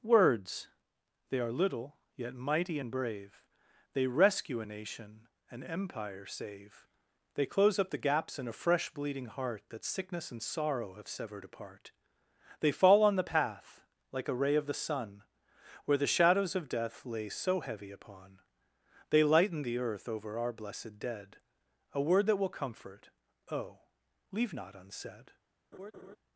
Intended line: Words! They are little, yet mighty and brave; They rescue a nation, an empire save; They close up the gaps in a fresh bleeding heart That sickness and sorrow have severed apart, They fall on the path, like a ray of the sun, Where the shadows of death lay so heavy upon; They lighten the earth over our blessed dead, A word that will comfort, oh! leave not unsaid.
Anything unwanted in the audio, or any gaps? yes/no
yes